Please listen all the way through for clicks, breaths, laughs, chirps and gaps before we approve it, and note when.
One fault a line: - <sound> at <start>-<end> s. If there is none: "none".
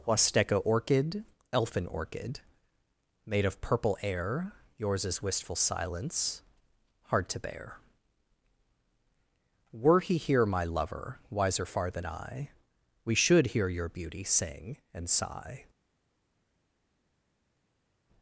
none